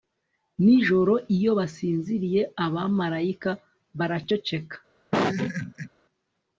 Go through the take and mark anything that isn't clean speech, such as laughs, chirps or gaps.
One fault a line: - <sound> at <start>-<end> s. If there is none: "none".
- laugh at 5.1-5.9 s